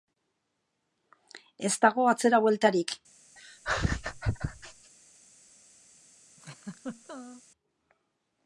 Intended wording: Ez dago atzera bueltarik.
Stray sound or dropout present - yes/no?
yes